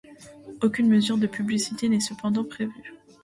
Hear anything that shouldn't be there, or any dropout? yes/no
no